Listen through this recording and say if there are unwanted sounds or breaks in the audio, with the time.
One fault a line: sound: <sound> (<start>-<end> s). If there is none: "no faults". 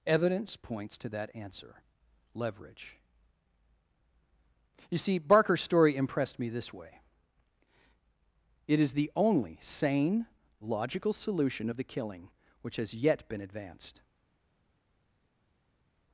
no faults